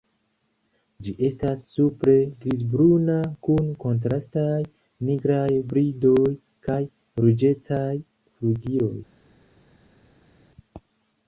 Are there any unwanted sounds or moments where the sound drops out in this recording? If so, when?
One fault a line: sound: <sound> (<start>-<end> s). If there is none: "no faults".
no faults